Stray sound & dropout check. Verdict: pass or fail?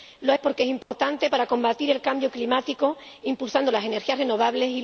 fail